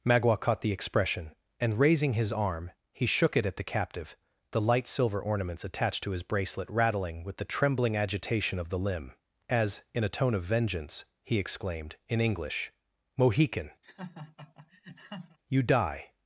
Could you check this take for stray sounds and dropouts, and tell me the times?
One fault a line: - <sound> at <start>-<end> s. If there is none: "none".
- laugh at 13.8-15.4 s